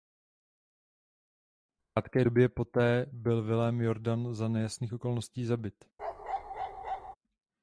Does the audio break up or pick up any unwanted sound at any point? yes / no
yes